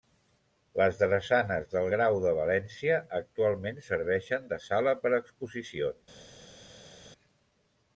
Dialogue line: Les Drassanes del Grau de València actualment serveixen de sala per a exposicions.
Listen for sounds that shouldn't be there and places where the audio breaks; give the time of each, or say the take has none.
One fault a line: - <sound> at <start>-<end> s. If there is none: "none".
none